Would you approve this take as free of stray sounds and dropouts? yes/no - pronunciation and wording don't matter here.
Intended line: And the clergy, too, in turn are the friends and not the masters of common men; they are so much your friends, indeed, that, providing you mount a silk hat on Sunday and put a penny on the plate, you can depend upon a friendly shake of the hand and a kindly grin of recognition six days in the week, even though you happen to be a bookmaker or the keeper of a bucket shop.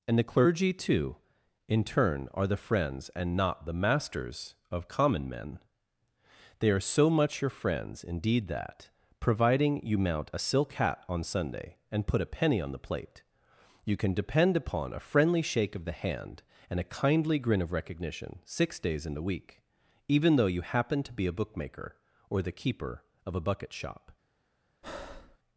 no